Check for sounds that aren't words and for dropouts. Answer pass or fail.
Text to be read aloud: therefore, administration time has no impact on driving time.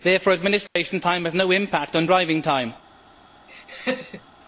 fail